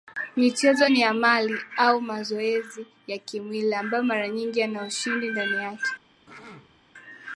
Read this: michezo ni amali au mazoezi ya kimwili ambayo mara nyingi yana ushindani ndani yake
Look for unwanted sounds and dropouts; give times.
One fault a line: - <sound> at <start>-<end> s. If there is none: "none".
- throat clearing at 6.3-6.8 s